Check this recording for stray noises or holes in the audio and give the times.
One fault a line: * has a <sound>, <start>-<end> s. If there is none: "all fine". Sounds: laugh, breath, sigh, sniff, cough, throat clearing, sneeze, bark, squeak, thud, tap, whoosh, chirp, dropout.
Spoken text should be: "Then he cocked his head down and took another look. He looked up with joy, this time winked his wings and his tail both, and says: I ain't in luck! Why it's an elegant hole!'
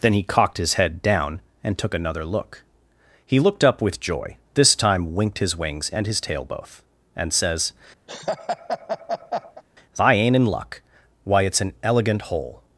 * has a laugh, 8.1-9.6 s